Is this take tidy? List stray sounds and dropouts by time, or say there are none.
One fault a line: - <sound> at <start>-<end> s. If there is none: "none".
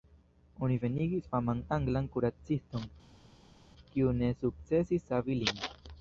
none